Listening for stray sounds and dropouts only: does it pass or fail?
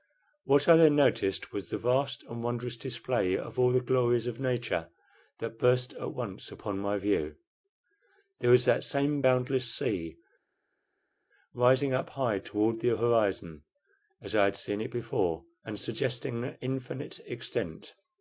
pass